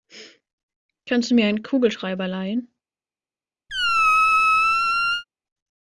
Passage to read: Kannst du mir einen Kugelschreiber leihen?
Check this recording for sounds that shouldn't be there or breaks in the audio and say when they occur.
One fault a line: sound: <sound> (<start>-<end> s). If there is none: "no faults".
sound: squeak (3.7-5.2 s)